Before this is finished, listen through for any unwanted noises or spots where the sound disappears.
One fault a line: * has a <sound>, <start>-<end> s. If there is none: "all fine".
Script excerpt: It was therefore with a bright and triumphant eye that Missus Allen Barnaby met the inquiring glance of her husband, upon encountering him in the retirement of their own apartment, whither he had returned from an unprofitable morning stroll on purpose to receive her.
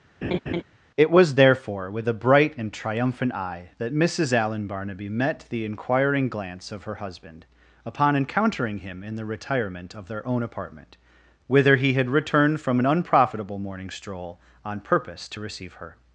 * has a laugh, 0.2-0.6 s